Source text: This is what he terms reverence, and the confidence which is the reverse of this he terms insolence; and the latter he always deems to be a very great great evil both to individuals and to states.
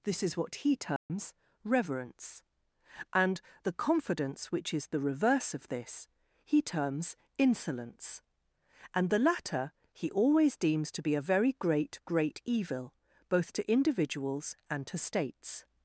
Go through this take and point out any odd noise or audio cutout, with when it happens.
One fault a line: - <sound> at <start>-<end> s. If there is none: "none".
- dropout at 1.0-1.1 s